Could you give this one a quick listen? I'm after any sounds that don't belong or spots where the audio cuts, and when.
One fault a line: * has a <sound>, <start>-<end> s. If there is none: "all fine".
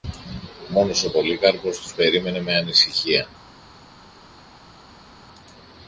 all fine